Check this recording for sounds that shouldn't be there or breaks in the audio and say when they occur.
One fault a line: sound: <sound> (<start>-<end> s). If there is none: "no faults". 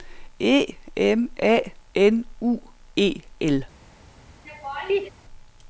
sound: laugh (4.4-5.1 s)